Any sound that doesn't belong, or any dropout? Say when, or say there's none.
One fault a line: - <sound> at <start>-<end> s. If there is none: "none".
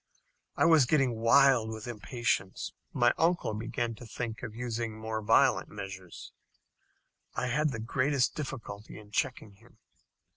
none